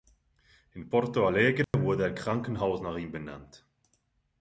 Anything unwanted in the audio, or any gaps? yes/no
yes